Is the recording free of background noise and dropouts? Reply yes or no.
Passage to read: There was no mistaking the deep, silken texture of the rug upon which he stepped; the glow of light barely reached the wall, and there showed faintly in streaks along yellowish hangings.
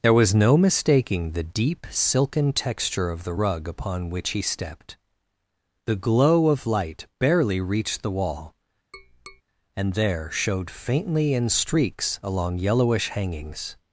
no